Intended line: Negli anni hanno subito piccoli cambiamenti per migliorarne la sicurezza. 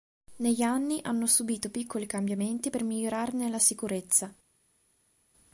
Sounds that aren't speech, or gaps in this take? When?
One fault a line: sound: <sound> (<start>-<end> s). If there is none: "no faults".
no faults